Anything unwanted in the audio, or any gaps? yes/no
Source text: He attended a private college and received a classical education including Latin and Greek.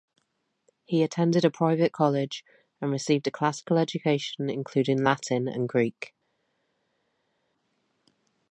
no